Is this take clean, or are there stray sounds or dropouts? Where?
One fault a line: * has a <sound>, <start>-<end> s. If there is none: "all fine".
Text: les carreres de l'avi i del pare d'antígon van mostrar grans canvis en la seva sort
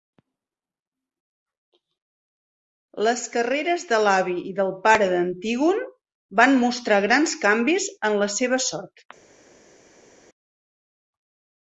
all fine